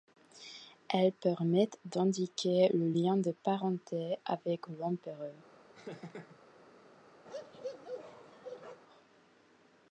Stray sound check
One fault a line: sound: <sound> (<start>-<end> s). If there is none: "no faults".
sound: laugh (5.7-6.4 s)
sound: bark (7.2-8.8 s)